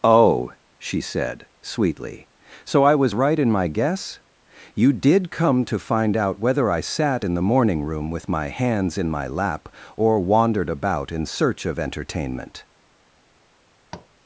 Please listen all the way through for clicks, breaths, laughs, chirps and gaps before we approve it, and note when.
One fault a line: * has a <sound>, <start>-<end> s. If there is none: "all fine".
* has a tap, 13.9-14.1 s